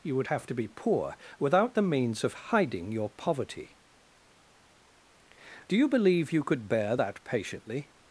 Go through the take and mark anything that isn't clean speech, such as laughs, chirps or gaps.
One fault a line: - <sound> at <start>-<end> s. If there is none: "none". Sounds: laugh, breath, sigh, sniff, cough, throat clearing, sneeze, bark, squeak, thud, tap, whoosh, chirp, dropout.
none